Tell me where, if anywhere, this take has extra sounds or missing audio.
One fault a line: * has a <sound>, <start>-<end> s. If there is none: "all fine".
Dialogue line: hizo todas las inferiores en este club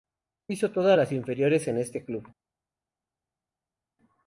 all fine